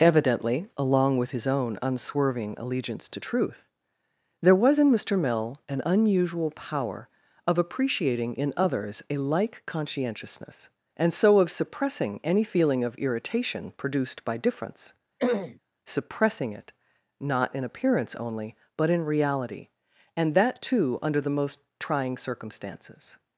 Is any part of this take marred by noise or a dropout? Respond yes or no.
yes